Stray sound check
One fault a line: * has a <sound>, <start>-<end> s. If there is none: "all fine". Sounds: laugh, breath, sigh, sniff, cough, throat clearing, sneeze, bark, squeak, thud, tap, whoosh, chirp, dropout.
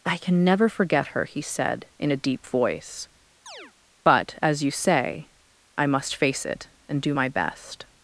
* has a chirp, 3.5-3.7 s